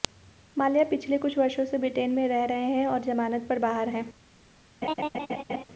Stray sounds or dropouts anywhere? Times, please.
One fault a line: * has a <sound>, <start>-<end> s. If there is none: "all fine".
* has a laugh, 4.8-5.6 s